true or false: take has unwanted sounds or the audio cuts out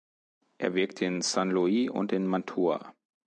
false